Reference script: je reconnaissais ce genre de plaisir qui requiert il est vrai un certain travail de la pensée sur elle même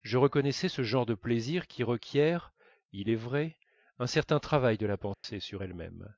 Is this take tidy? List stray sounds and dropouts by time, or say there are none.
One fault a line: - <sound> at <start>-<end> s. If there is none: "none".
- dropout at 5.1-5.2 s